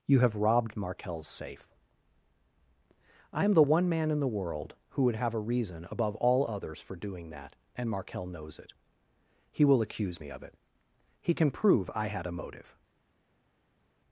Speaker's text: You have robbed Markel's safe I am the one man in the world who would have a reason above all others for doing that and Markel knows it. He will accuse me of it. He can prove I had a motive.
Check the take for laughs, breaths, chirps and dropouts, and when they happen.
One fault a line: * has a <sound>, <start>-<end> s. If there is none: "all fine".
all fine